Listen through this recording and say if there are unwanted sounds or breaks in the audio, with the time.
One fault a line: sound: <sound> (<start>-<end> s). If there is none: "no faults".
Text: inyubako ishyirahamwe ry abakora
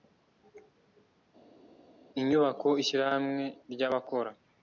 no faults